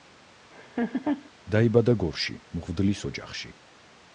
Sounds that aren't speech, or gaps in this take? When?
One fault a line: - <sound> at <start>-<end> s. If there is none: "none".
- laugh at 0.5-1.3 s